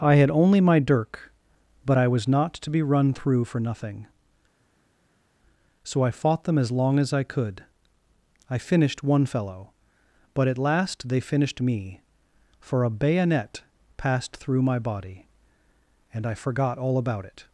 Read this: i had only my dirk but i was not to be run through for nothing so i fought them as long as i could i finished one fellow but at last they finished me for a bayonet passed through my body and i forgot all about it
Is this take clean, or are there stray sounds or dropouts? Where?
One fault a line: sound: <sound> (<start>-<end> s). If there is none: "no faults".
no faults